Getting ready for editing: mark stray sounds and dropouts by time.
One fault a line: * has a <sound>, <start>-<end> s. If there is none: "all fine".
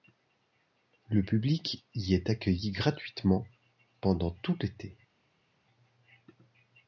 all fine